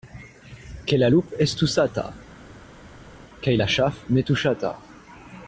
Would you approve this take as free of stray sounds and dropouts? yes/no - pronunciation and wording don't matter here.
yes